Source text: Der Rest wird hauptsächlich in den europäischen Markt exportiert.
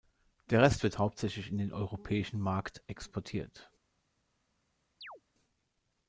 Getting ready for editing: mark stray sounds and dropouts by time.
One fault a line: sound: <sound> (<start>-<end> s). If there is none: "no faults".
sound: chirp (5.0-5.2 s)